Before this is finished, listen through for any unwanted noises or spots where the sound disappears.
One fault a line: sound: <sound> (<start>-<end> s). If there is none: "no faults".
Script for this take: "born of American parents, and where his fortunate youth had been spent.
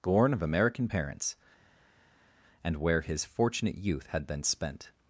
no faults